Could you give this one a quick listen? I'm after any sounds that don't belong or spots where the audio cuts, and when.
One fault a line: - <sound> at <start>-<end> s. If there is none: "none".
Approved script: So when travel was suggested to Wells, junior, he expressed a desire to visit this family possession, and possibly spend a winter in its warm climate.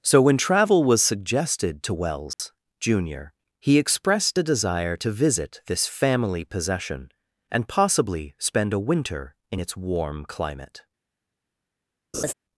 - dropout at 2.3-2.4 s
- laugh at 12.1-12.3 s